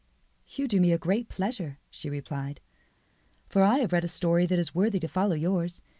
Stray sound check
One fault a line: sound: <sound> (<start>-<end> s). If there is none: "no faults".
no faults